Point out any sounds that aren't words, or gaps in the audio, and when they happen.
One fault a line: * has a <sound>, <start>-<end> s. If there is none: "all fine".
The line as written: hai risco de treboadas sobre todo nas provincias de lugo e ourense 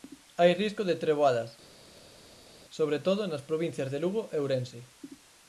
all fine